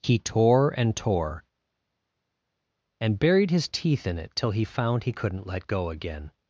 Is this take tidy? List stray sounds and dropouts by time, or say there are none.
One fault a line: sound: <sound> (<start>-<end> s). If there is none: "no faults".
no faults